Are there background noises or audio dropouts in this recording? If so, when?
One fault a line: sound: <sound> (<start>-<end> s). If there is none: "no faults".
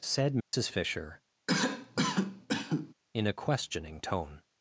sound: dropout (0.4-0.5 s)
sound: cough (1.5-2.9 s)